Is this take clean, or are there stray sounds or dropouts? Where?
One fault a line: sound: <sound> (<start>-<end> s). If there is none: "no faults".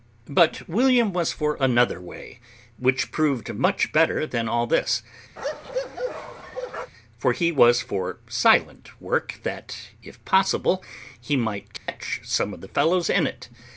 sound: bark (5.4-6.9 s)
sound: dropout (11.8-11.9 s)